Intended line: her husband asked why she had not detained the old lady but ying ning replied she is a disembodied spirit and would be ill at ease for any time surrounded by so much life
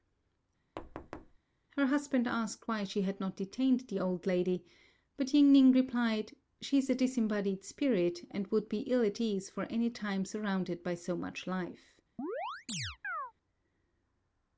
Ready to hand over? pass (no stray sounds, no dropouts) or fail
fail